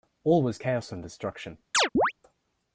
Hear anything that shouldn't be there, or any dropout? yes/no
yes